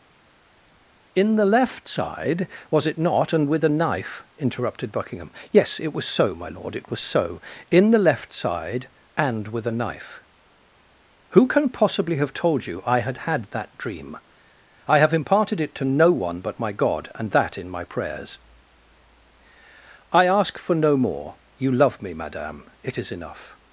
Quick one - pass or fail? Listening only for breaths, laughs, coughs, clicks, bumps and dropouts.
pass